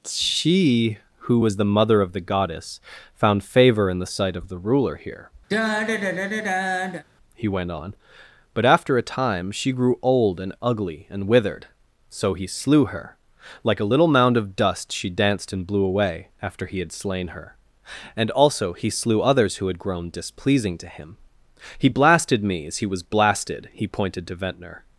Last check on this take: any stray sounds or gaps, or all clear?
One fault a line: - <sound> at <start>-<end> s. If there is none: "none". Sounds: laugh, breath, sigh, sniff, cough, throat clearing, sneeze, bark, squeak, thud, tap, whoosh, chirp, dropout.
- sigh at 5.5-7.0 s